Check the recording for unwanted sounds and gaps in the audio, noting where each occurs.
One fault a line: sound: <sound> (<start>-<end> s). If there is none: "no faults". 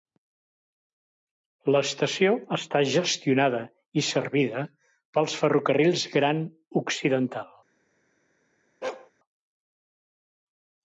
sound: bark (8.8-9.1 s)